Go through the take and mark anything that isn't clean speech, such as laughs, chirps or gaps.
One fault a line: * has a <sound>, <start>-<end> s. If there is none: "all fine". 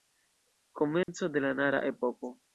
* has a dropout, 1.0-1.1 s